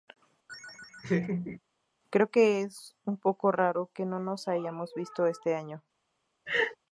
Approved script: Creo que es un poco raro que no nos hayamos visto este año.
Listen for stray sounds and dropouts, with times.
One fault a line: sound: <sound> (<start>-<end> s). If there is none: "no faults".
sound: laugh (0.5-1.6 s)
sound: laugh (6.5-6.8 s)